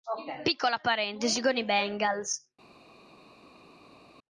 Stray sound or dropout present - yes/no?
no